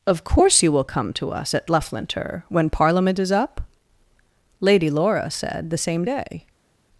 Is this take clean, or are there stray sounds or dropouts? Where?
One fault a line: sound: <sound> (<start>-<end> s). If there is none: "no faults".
no faults